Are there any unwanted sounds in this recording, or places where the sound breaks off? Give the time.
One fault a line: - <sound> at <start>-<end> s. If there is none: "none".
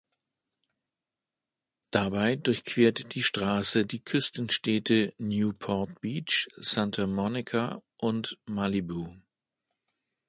none